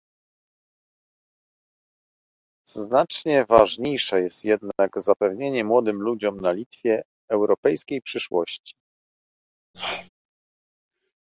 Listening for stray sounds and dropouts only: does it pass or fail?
fail